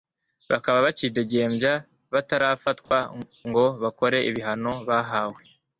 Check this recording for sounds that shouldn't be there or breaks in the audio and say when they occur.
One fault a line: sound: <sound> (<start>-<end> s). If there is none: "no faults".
sound: dropout (2.9-2.9 s)